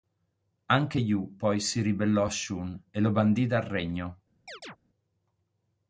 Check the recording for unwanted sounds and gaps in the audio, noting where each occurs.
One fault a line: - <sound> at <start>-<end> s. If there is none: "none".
- chirp at 4.5-4.8 s